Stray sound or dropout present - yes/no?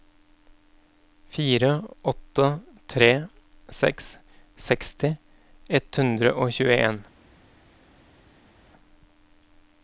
no